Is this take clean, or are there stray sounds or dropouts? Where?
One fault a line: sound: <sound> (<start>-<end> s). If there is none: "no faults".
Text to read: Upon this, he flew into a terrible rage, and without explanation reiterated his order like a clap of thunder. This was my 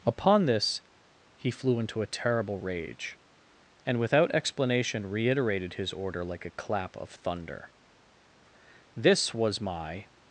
no faults